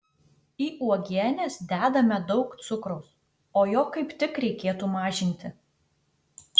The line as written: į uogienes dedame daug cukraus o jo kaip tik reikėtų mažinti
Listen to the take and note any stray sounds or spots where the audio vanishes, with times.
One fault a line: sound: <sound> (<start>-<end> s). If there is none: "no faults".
no faults